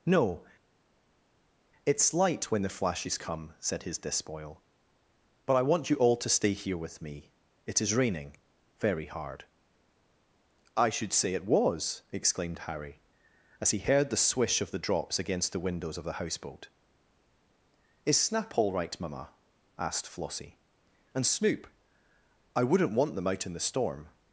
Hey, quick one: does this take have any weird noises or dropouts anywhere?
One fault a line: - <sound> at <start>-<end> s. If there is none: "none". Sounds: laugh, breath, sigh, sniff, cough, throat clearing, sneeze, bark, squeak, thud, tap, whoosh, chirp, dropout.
none